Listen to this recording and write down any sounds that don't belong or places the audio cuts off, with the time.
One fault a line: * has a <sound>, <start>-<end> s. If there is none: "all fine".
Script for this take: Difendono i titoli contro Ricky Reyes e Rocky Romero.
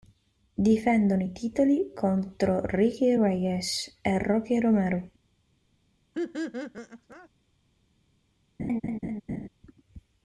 * has a laugh, 6.1-7.3 s
* has a laugh, 8.6-9.5 s